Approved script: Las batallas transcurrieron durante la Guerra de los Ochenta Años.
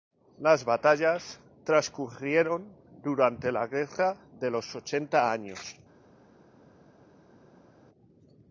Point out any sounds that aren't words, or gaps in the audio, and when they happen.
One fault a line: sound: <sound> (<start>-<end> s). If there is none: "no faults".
no faults